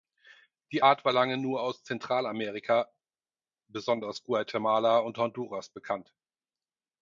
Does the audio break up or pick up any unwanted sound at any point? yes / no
no